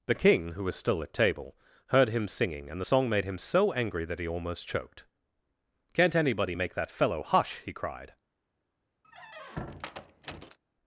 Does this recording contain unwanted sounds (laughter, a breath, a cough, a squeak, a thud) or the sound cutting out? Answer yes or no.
yes